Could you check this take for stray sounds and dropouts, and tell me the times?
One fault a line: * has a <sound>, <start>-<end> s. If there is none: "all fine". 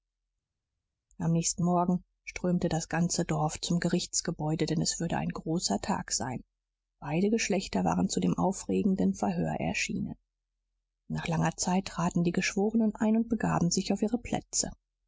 all fine